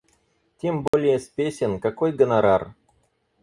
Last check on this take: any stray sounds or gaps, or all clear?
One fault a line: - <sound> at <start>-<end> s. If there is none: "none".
- dropout at 0.9-0.9 s